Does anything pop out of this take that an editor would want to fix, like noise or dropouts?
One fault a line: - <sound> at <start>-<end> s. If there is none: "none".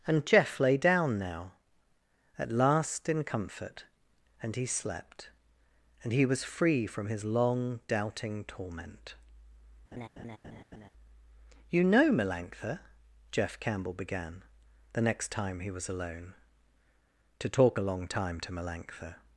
- laugh at 9.9-10.9 s